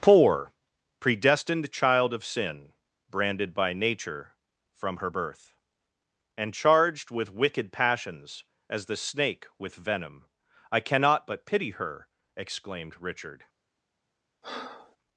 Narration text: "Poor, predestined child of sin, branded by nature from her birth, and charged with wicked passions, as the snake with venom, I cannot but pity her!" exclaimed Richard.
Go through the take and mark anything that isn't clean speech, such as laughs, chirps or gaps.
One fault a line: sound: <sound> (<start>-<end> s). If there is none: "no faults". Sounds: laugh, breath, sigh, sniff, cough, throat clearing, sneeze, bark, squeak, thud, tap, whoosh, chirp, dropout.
sound: breath (14.4-15.0 s)